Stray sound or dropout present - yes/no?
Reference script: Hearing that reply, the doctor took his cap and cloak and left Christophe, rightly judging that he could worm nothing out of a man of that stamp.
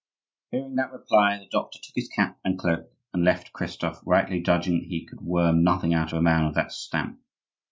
no